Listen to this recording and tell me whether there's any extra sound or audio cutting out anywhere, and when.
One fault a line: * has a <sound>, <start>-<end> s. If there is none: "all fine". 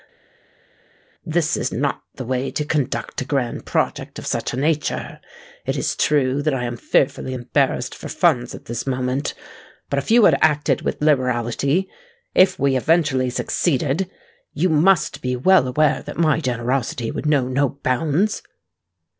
all fine